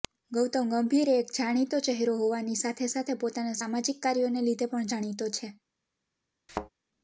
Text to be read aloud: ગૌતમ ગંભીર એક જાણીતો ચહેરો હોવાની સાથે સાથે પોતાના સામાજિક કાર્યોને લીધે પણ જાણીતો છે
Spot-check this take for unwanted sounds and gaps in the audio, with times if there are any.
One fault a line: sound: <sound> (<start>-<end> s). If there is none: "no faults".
sound: thud (6.5-6.7 s)